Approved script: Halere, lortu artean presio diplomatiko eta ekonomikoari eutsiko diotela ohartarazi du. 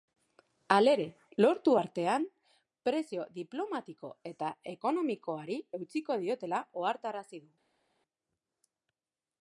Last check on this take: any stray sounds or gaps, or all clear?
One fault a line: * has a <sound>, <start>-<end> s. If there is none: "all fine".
all fine